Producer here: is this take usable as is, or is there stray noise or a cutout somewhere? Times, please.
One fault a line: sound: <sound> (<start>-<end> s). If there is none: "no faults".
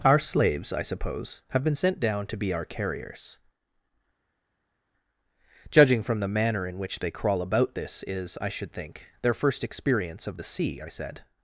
no faults